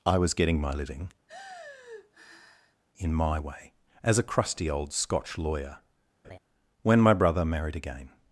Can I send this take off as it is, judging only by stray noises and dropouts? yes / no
no